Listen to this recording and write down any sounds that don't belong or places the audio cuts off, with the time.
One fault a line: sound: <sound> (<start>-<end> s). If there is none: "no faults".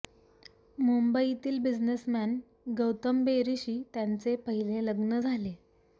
no faults